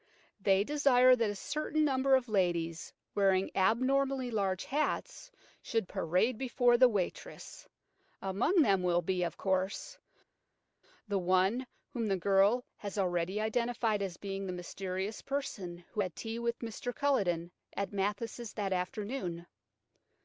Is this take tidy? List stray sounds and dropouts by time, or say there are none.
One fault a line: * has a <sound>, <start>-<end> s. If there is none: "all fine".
all fine